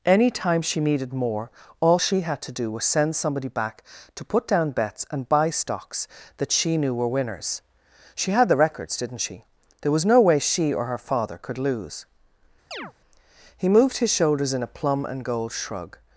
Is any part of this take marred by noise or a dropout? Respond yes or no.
yes